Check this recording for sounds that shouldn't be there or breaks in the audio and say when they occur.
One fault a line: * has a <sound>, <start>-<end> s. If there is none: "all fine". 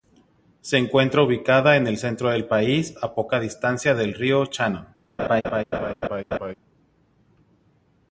* has a laugh, 5.2-6.5 s